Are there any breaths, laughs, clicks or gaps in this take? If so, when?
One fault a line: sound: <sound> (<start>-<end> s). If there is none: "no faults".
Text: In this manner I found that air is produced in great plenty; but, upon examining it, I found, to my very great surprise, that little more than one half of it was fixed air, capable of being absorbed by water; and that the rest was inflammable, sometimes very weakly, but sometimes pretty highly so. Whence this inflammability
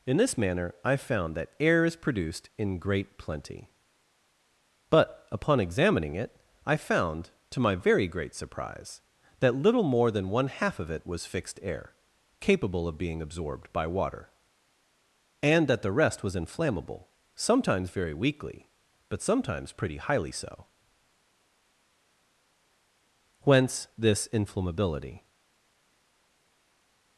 no faults